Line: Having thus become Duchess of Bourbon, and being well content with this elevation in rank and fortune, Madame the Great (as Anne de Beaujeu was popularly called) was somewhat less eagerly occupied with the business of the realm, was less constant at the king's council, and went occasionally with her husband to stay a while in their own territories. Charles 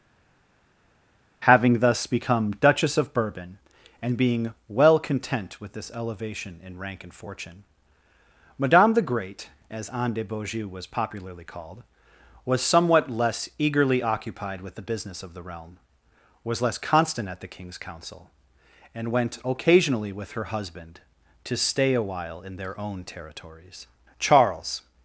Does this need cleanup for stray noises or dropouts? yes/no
no